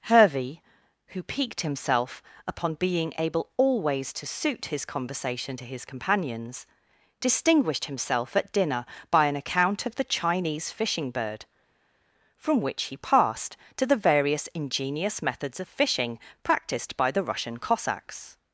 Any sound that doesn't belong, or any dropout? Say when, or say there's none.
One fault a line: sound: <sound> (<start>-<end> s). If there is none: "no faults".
no faults